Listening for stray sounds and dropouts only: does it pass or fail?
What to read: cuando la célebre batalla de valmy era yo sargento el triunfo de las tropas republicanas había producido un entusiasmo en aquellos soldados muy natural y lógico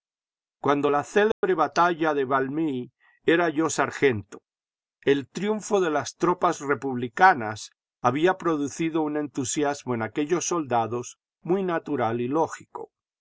fail